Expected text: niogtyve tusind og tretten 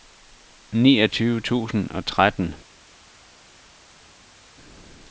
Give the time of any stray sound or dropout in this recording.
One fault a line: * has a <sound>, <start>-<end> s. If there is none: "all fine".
all fine